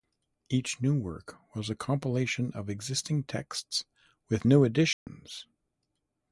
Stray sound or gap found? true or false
true